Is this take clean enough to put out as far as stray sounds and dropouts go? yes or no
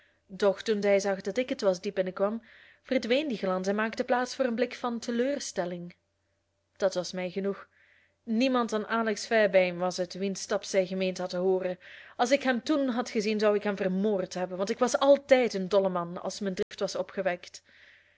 no